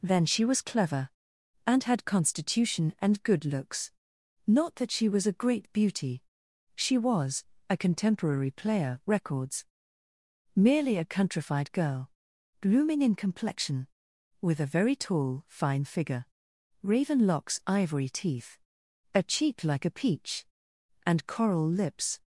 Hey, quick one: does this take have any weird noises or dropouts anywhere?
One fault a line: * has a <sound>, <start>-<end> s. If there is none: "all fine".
all fine